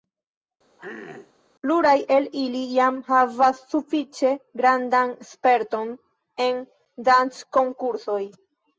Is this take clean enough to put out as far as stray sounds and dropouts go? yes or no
no